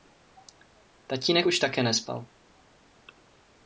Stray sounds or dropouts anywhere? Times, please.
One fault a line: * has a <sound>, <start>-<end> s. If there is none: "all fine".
all fine